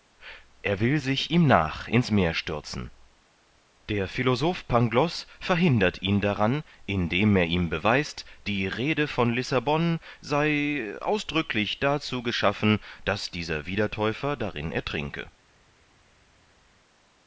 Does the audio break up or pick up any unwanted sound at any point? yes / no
no